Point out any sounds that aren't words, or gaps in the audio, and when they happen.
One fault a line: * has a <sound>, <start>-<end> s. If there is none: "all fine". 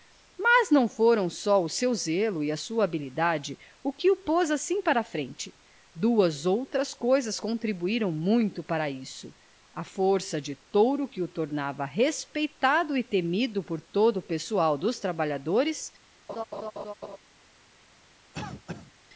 * has a laugh, 16.3-17.2 s
* has a cough, 18.3-18.9 s